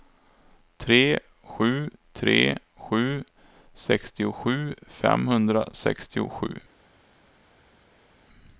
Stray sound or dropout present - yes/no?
no